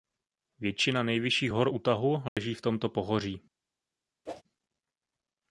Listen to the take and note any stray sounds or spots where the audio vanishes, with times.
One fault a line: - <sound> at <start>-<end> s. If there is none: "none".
- dropout at 2.3-2.4 s
- whoosh at 4.3-4.4 s